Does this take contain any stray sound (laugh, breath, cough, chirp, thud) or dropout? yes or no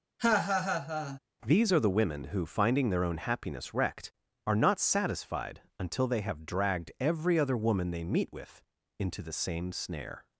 yes